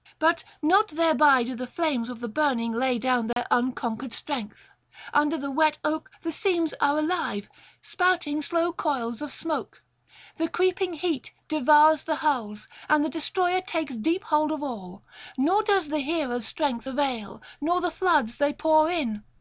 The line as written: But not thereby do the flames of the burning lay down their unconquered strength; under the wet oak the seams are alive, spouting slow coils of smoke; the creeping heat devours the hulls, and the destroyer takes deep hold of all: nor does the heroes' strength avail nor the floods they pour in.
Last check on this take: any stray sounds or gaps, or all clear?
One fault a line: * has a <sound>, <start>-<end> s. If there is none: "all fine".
* has a dropout, 3.3-3.4 s